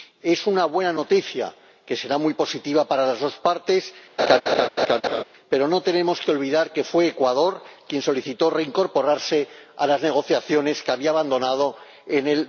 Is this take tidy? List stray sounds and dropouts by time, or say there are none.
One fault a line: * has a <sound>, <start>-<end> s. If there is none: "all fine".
* has a laugh, 4.2-5.2 s